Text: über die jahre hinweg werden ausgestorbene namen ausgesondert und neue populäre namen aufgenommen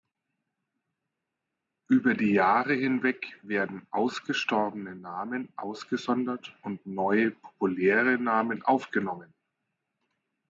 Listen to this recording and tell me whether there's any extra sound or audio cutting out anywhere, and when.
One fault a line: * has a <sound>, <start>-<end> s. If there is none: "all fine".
all fine